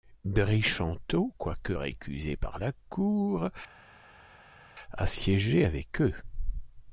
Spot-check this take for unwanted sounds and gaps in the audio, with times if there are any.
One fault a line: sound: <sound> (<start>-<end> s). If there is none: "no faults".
no faults